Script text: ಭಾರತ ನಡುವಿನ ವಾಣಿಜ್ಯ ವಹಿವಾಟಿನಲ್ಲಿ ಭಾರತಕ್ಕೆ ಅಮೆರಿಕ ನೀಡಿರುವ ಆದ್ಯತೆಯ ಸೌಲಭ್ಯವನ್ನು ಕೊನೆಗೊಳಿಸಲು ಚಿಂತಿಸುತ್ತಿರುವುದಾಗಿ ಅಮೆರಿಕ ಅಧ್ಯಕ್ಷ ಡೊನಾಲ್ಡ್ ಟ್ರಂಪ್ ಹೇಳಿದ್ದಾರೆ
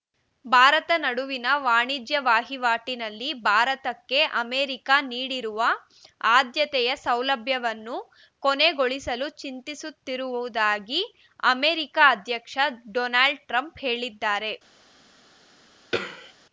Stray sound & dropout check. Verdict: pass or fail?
fail